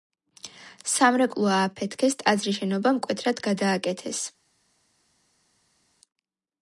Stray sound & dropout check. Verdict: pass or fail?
pass